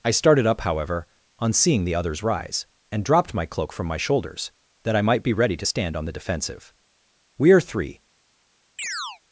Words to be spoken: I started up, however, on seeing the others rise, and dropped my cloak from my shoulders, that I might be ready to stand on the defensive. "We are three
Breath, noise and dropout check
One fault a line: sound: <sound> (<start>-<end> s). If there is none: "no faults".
sound: chirp (8.8-9.2 s)